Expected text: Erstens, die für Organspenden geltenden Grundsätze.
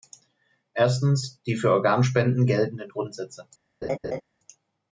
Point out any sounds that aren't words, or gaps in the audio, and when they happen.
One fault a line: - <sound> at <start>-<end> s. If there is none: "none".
- laugh at 3.8-4.2 s